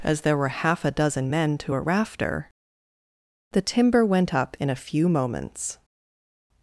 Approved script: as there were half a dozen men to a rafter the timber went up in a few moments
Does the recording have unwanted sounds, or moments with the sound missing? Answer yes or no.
no